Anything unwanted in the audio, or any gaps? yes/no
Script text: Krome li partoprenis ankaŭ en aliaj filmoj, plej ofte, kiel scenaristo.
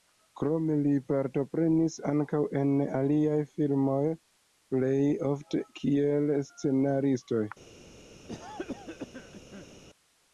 yes